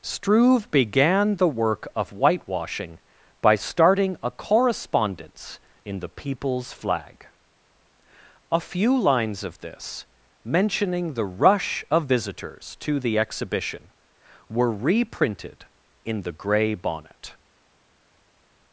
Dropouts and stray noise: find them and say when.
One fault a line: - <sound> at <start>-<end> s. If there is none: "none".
none